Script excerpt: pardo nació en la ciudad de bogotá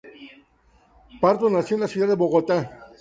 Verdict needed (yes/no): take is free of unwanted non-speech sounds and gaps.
yes